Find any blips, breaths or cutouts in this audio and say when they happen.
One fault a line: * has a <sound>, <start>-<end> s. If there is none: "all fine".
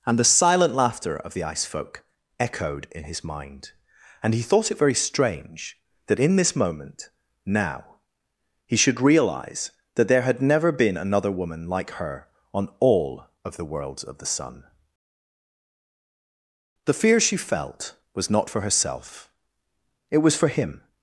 all fine